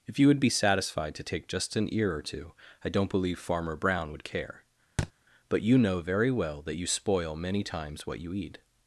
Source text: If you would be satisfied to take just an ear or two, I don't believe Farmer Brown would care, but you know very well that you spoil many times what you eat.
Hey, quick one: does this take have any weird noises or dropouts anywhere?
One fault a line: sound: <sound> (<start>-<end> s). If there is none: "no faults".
sound: thud (5.0-5.1 s)